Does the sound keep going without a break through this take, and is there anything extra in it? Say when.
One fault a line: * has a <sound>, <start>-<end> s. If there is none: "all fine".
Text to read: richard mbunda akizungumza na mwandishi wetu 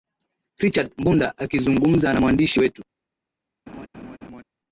* has a laugh, 3.7-4.4 s